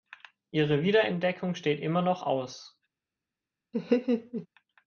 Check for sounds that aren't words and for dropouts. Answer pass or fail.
fail